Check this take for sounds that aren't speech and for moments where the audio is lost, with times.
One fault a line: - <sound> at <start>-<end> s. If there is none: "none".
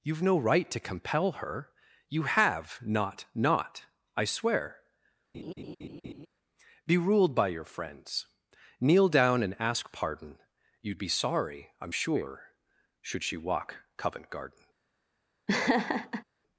- laugh at 5.3-6.3 s
- laugh at 15.5-16.2 s